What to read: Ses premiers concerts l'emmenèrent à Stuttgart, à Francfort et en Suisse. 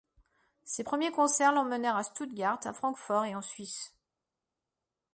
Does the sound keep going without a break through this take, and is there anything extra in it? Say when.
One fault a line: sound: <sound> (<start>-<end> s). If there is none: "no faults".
no faults